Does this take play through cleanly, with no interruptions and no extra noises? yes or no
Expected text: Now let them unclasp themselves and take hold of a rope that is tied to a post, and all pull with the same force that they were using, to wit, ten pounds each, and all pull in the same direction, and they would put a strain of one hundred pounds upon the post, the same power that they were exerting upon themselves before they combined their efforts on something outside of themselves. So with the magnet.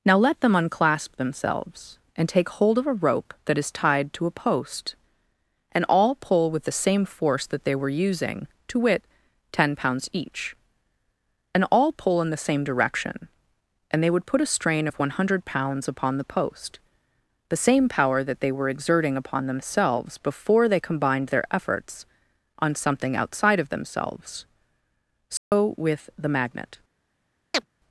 no